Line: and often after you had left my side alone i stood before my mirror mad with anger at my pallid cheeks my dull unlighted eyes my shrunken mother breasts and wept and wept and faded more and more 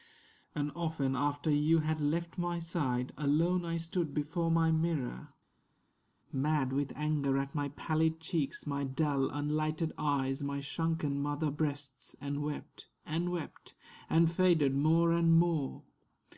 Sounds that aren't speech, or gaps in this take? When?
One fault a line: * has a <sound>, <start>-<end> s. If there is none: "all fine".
all fine